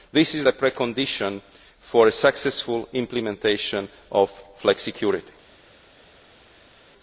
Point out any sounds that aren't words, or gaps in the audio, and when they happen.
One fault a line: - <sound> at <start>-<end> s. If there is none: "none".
none